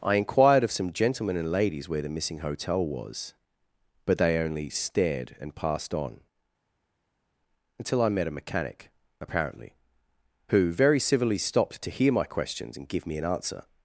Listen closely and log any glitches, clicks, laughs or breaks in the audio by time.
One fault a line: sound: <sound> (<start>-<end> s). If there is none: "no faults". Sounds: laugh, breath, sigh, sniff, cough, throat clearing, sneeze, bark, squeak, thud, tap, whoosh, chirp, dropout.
no faults